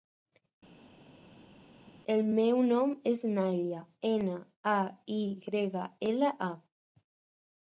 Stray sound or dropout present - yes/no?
no